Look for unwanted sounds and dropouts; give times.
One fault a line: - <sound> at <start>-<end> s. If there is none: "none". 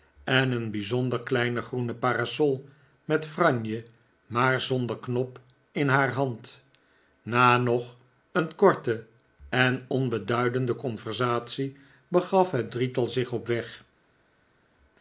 none